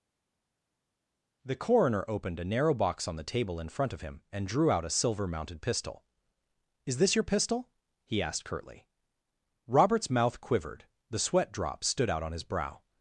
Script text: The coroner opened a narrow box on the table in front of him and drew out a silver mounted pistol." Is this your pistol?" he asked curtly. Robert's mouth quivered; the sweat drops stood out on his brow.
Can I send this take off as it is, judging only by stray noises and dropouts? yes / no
yes